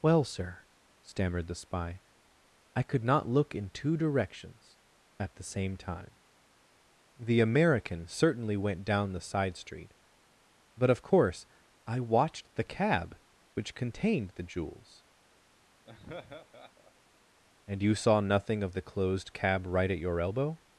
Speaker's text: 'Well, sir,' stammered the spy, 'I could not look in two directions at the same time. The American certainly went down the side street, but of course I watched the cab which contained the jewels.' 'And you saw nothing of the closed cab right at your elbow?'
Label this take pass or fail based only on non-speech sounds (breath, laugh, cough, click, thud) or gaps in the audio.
fail